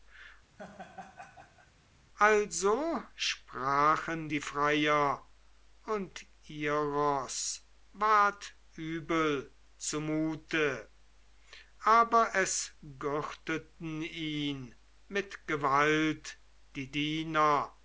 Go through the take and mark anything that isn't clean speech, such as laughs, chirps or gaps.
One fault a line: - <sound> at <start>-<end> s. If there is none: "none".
- laugh at 0.6-1.7 s